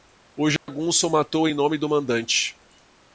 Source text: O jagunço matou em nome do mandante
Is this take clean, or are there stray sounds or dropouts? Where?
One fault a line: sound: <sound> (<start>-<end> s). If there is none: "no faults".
sound: dropout (0.6-0.7 s)